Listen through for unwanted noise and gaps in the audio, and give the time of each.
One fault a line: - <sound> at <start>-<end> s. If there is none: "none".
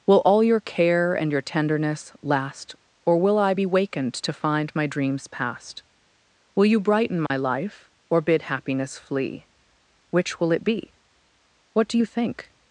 - dropout at 7.3-7.3 s